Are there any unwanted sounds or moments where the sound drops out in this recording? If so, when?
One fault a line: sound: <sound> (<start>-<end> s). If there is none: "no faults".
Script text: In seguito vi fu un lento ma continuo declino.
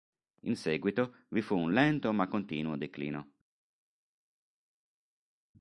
no faults